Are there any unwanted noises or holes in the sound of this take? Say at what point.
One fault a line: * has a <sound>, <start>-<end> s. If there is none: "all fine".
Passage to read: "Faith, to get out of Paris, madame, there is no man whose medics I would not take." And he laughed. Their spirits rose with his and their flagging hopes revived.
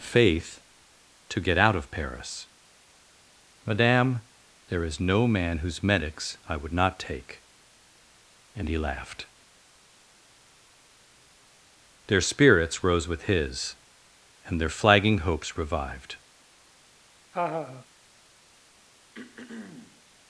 * has a laugh, 17.3-17.9 s
* has a throat clearing, 19.1-20.0 s